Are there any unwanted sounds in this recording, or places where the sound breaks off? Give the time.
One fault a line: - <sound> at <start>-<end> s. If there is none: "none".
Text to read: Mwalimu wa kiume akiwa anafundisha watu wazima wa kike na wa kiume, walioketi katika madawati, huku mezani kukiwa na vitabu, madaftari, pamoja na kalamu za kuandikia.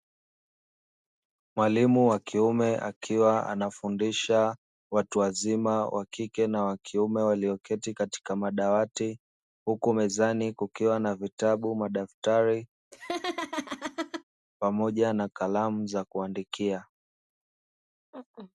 - laugh at 12.9-14.2 s